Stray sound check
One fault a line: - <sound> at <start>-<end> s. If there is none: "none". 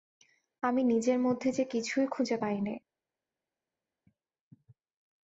none